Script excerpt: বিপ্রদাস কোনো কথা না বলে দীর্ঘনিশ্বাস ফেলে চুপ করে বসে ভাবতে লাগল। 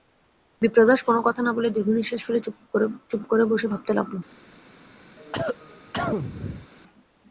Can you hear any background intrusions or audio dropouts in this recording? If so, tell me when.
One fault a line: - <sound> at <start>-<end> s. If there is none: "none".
- cough at 5.2-6.7 s